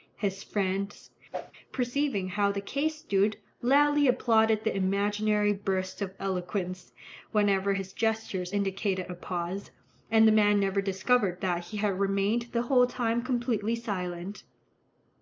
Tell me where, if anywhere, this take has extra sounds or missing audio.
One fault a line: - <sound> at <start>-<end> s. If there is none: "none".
- whoosh at 1.3-1.5 s